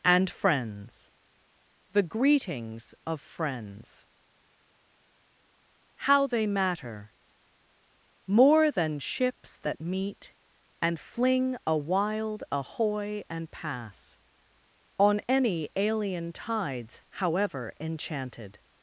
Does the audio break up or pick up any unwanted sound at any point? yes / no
no